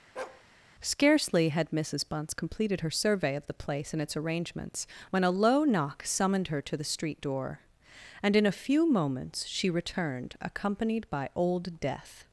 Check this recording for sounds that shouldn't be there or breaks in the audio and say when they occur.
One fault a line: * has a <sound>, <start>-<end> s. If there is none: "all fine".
* has a bark, 0.2-0.4 s